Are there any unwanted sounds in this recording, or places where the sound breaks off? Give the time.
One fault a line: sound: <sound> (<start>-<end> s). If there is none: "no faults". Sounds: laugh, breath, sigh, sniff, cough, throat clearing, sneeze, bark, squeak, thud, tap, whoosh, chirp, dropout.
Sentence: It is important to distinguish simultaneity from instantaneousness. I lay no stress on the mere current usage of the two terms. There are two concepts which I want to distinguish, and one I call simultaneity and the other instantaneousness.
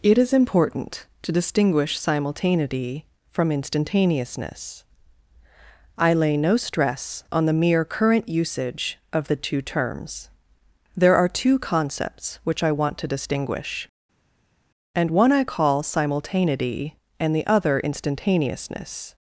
no faults